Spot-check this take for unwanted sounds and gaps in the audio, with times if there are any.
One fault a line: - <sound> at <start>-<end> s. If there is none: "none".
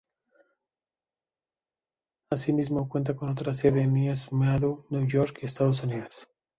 none